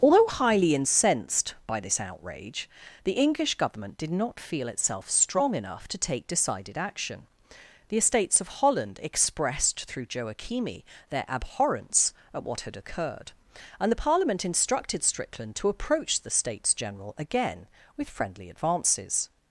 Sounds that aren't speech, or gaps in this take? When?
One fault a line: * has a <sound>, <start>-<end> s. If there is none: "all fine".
all fine